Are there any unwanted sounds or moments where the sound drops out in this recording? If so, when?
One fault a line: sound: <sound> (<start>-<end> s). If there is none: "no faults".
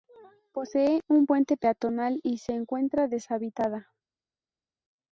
no faults